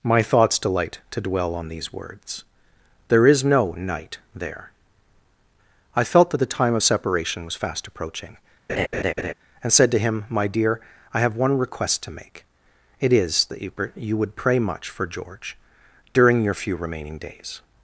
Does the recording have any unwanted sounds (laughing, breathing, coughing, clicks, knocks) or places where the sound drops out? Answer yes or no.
yes